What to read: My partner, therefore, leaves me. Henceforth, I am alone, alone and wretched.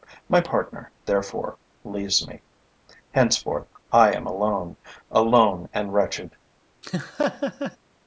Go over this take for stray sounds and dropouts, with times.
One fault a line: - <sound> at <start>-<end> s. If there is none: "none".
- laugh at 6.8-7.8 s